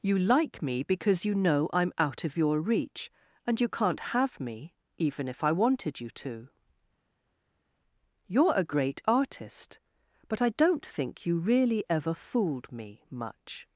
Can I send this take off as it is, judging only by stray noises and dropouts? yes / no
yes